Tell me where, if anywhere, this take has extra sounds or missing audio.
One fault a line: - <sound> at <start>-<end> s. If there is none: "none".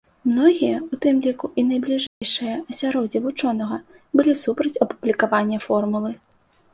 - dropout at 2.1-2.2 s